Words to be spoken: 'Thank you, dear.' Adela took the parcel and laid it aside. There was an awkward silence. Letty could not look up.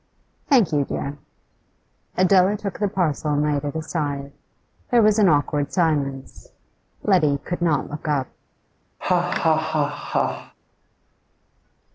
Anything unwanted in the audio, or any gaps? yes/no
yes